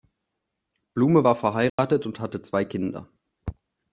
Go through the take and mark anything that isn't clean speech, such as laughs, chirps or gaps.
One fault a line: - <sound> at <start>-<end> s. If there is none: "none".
- dropout at 1.7-1.8 s